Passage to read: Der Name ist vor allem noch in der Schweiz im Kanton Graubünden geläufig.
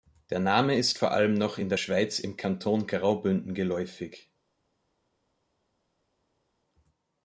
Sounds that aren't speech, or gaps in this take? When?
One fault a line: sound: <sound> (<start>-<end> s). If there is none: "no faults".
no faults